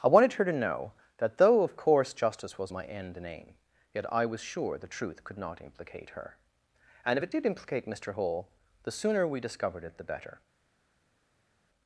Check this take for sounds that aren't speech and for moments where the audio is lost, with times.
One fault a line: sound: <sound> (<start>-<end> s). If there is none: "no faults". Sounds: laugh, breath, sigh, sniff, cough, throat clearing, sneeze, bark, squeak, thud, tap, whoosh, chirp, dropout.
no faults